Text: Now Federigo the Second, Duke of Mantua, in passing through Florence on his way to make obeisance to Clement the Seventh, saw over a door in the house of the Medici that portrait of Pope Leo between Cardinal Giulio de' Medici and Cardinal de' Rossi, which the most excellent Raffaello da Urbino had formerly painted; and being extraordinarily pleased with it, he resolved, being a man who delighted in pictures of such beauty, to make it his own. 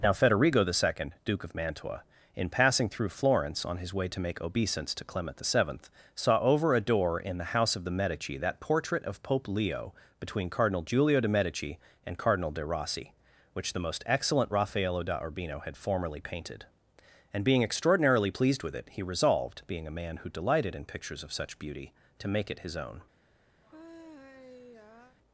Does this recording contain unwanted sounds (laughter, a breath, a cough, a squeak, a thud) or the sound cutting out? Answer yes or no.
yes